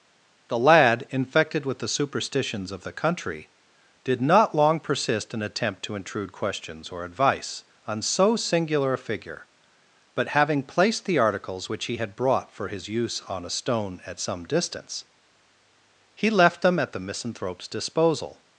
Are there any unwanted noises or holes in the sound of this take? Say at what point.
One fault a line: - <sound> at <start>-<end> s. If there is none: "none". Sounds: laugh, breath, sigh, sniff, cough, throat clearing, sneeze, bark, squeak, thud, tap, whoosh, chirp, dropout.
none